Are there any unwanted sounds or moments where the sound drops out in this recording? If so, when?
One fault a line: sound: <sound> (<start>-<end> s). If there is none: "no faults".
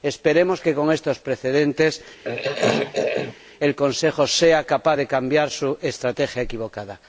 sound: throat clearing (2.2-3.4 s)